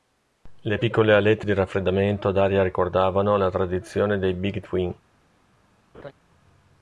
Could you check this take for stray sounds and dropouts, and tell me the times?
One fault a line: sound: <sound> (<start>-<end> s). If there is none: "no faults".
sound: laugh (5.9-6.1 s)